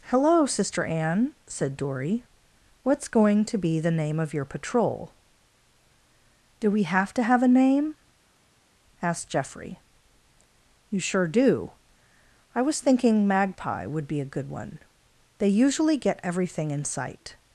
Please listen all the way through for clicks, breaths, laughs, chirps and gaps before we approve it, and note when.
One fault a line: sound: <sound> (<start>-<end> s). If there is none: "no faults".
no faults